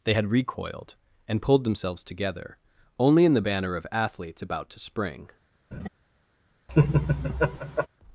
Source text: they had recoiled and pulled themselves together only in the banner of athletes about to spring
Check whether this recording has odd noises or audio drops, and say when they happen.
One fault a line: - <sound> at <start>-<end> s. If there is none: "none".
- laugh at 5.7-5.9 s
- laugh at 6.7-7.9 s